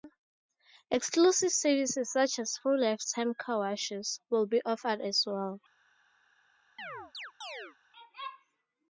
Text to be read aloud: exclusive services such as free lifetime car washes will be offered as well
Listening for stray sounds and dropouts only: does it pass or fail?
fail